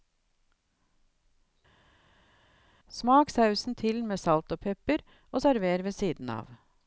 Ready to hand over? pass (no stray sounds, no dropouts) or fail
pass